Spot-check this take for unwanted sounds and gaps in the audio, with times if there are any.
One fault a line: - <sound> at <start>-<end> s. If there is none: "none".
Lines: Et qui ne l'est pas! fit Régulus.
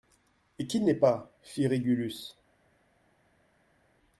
none